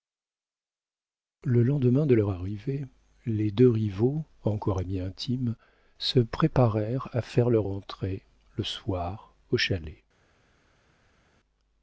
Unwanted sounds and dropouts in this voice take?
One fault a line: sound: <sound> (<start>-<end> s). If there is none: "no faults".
no faults